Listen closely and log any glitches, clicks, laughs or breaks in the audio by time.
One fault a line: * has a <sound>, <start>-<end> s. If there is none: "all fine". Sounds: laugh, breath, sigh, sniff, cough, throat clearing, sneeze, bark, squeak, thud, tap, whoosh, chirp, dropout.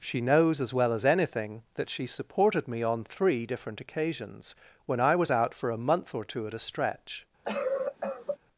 * has a cough, 7.4-8.4 s